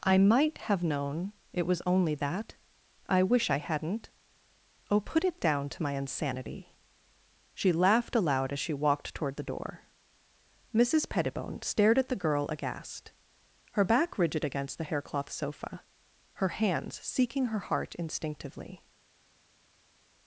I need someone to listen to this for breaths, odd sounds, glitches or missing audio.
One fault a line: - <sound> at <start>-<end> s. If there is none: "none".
none